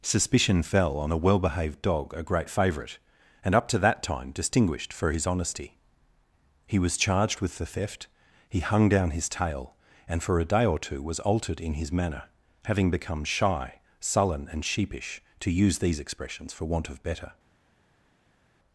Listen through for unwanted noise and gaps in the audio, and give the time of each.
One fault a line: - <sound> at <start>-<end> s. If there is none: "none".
none